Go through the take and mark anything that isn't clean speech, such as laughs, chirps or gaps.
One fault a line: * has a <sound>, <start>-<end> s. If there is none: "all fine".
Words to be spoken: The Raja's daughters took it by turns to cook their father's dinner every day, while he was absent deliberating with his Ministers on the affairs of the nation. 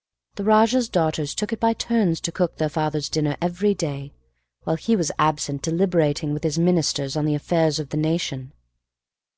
all fine